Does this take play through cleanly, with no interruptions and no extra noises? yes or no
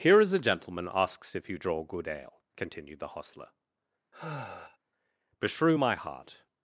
no